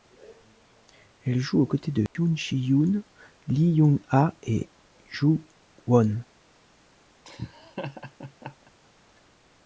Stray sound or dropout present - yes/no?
yes